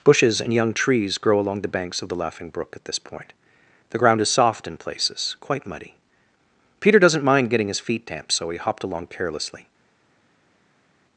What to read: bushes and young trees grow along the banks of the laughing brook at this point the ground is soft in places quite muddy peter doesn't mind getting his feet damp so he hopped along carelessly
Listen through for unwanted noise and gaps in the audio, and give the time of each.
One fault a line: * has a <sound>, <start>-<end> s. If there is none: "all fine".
all fine